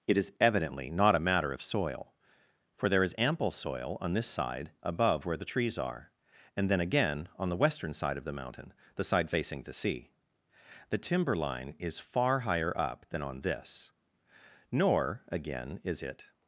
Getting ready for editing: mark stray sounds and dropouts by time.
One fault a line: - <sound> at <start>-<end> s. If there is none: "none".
none